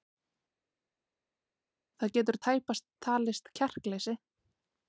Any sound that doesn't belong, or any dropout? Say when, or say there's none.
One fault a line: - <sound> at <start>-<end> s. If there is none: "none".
none